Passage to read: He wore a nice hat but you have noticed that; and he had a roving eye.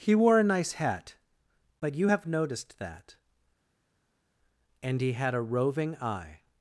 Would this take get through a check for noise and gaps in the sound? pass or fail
pass